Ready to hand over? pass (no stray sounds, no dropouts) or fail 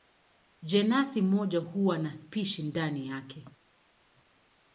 pass